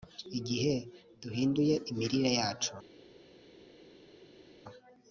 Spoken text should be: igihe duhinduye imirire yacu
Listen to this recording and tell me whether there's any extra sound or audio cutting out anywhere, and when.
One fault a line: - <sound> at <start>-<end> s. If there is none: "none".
none